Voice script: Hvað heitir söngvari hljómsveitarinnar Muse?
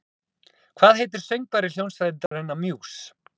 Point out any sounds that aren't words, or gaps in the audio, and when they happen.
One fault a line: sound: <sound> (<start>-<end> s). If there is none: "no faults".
sound: dropout (2.3-2.3 s)